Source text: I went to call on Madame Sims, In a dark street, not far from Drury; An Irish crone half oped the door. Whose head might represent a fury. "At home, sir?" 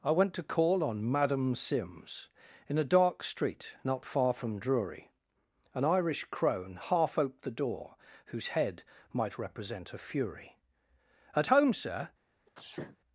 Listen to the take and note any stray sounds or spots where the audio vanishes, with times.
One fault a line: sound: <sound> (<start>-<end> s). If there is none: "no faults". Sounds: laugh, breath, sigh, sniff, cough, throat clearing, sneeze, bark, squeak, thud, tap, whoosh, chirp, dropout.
sound: sneeze (12.5-13.0 s)